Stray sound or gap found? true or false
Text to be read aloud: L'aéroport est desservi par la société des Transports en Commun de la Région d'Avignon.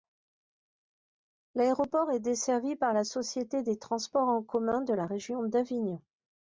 false